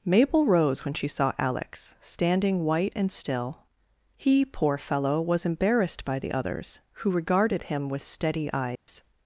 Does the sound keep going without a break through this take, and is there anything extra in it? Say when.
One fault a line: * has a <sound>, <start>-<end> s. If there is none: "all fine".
* has a dropout, 8.8-8.9 s